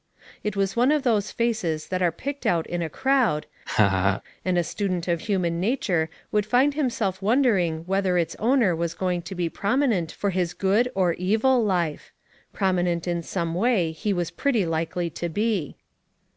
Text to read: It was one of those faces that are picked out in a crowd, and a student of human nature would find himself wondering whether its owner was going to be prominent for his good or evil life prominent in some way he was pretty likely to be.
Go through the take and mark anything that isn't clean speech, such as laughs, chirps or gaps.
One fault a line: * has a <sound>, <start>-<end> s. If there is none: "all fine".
* has a laugh, 3.7-4.2 s